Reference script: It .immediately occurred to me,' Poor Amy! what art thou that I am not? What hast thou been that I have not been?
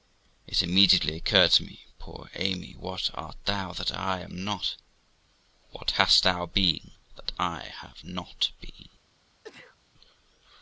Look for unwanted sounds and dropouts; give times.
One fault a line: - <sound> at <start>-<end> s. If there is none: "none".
- sneeze at 9.4-9.8 s